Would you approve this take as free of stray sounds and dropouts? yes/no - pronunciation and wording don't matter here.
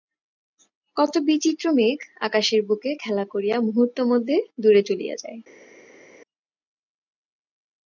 yes